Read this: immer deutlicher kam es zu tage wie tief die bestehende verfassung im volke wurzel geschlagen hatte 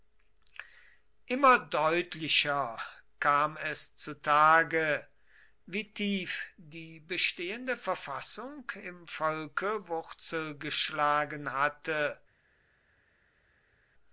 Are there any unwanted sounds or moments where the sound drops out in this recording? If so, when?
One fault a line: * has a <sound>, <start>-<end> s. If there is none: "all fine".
all fine